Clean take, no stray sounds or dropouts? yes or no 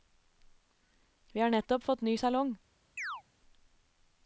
no